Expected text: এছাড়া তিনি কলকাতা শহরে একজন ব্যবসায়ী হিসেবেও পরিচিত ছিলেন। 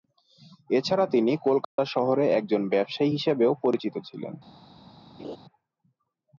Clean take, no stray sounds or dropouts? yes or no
no